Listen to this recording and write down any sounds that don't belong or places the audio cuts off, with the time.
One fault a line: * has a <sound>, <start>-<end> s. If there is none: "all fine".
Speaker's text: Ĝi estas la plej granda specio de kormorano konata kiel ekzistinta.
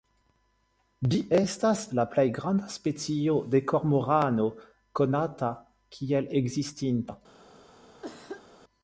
* has a cough, 8.0-8.5 s